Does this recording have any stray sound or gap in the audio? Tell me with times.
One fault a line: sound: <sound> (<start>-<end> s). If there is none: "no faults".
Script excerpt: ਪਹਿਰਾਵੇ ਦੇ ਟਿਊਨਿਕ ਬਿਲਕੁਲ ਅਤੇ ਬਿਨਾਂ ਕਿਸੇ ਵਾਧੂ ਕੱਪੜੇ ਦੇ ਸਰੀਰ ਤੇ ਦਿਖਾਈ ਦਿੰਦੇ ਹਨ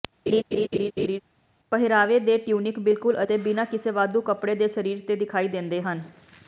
sound: laugh (0.3-1.2 s)